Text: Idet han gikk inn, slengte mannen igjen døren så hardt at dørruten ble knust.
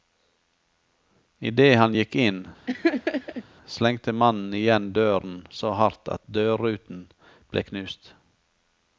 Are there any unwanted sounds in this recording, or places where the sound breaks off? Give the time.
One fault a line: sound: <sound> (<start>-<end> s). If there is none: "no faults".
sound: laugh (2.7-3.4 s)